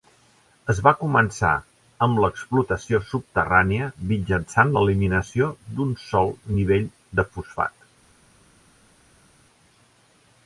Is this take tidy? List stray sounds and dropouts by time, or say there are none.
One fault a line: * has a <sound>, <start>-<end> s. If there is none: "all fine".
all fine